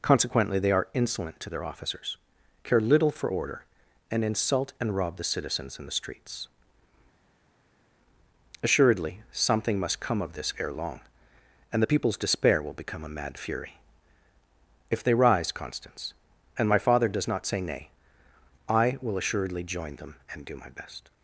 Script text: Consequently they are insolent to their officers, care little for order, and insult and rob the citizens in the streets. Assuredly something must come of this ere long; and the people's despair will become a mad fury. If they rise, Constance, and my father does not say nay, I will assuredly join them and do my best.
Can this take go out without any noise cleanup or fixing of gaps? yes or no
yes